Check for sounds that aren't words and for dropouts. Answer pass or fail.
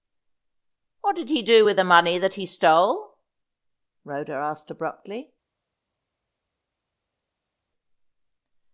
pass